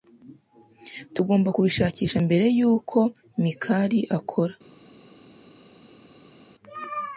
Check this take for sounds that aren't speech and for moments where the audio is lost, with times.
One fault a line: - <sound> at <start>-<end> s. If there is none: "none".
none